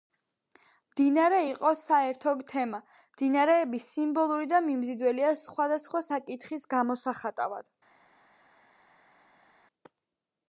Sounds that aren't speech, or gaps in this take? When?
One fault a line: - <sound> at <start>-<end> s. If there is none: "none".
none